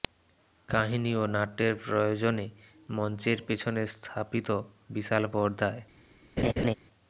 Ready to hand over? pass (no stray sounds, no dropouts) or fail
fail